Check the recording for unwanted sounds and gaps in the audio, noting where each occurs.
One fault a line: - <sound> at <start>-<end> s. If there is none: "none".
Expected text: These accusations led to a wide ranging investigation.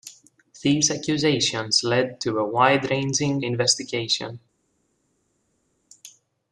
none